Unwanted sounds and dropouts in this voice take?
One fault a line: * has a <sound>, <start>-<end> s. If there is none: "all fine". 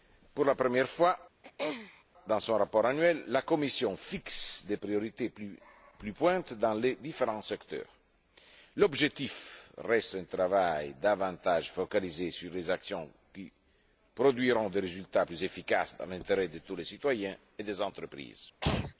* has a throat clearing, 1.4-2.0 s
* has a throat clearing, 18.6-18.9 s